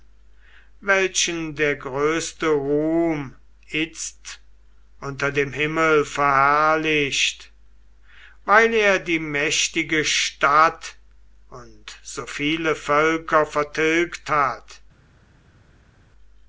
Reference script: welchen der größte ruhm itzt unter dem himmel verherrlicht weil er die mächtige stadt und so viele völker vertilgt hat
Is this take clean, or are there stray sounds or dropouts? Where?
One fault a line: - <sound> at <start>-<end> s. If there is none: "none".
none